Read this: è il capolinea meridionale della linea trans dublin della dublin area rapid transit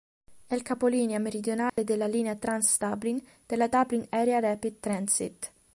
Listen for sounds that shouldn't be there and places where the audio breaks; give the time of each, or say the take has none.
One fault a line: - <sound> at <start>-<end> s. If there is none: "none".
- dropout at 1.7-1.8 s